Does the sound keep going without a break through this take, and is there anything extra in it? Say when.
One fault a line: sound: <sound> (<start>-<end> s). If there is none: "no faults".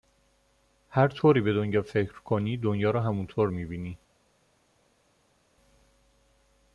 no faults